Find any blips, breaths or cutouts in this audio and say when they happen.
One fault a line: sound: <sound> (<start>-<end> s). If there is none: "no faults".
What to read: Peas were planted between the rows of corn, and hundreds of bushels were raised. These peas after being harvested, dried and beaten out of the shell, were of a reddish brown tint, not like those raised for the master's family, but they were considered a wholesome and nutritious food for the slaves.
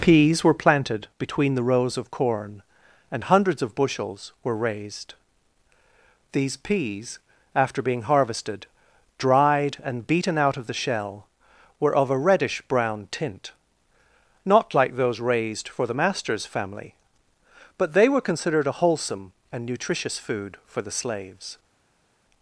no faults